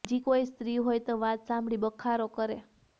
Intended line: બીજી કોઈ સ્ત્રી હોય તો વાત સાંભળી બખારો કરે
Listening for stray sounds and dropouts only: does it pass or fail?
pass